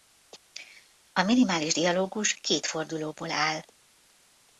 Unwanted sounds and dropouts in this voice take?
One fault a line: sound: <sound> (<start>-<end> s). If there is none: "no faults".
no faults